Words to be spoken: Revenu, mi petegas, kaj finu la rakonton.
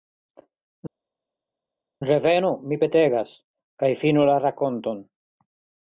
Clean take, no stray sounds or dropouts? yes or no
yes